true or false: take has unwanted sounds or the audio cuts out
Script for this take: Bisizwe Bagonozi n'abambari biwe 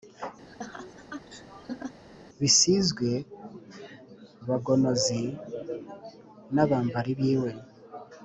true